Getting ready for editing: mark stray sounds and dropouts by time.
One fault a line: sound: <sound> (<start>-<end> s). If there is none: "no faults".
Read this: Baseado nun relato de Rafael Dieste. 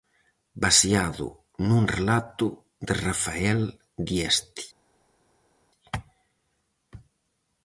no faults